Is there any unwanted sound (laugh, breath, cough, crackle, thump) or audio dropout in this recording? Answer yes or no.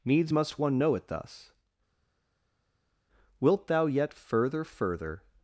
no